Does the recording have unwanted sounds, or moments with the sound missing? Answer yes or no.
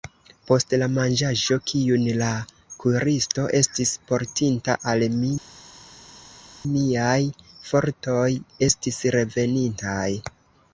no